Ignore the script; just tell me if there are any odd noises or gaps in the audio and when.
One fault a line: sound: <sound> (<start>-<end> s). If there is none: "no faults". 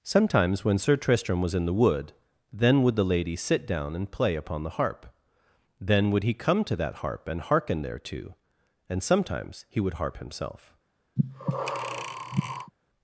sound: breath (11.2-12.7 s)